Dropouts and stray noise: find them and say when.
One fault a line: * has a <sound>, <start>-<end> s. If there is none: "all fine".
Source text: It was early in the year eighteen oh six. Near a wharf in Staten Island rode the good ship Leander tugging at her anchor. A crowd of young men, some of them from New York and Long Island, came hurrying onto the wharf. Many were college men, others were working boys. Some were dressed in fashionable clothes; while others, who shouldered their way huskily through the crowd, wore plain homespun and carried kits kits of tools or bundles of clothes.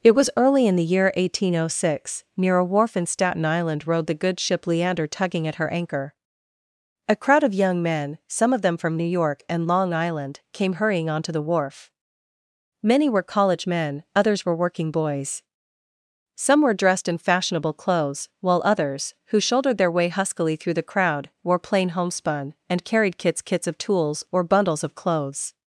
all fine